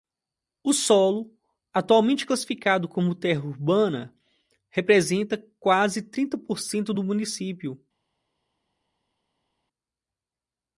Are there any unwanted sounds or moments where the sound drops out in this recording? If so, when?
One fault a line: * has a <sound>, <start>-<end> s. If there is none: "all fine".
all fine